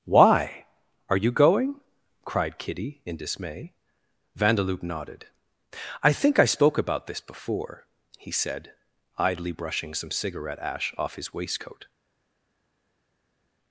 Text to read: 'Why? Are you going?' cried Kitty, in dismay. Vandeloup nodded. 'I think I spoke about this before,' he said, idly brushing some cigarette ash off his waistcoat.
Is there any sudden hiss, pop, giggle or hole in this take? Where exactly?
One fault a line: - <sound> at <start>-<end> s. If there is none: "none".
none